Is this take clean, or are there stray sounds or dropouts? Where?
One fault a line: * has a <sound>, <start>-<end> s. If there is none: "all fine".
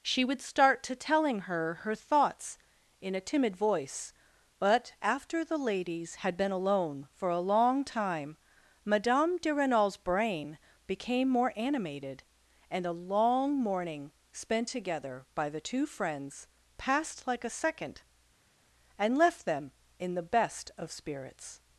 all fine